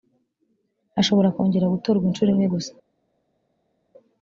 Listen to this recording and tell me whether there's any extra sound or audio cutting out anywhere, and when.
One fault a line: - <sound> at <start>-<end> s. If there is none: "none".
none